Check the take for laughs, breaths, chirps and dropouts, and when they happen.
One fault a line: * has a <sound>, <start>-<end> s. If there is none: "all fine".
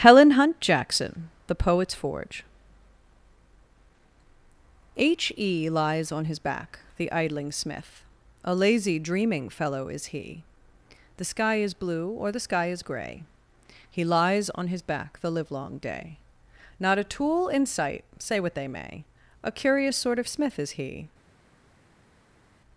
all fine